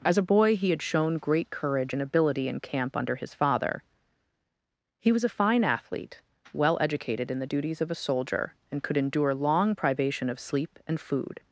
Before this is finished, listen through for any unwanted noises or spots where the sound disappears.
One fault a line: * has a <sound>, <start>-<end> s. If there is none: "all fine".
all fine